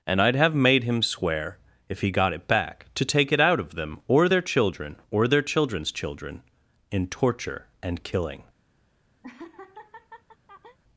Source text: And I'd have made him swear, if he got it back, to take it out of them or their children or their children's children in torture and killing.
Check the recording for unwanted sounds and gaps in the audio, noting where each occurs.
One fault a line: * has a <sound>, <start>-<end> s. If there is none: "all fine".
* has a laugh, 9.2-10.8 s